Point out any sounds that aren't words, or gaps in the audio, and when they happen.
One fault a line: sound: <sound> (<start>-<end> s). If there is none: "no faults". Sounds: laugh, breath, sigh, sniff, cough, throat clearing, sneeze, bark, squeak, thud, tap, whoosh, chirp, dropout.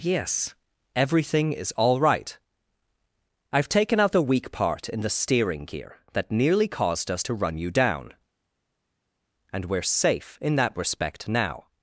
no faults